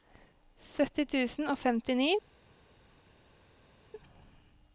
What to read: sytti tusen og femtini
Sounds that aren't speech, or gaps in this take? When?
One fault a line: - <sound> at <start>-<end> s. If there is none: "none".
none